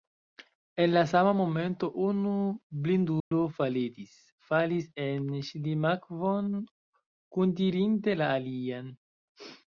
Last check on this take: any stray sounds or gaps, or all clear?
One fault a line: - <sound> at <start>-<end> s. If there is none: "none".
- dropout at 3.2-3.3 s